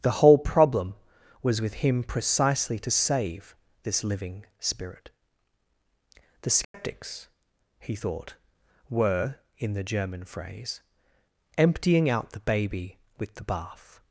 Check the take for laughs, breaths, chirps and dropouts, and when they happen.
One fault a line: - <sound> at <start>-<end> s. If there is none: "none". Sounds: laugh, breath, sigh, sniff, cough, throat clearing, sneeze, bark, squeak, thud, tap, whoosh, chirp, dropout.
- dropout at 6.6-6.7 s